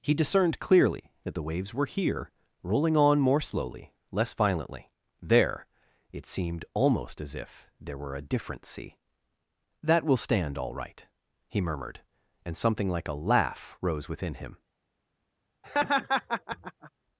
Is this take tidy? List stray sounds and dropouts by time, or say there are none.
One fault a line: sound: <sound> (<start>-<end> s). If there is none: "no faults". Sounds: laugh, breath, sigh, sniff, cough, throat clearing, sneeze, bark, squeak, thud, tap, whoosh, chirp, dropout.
sound: laugh (15.6-16.9 s)